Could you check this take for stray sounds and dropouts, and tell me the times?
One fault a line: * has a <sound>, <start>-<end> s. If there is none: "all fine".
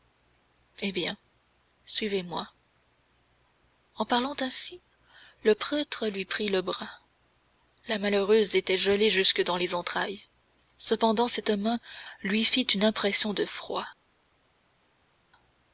all fine